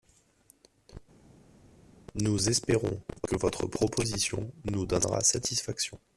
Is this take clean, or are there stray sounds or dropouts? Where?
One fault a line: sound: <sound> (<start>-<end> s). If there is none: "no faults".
no faults